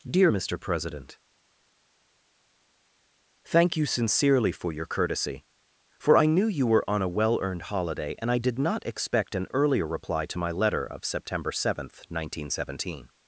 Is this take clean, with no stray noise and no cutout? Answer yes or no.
yes